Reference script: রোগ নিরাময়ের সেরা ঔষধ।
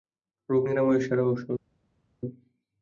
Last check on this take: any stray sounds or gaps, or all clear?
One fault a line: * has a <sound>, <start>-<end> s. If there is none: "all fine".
all fine